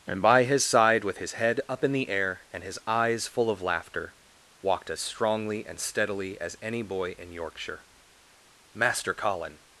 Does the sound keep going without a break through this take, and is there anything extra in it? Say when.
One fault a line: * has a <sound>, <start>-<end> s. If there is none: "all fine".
all fine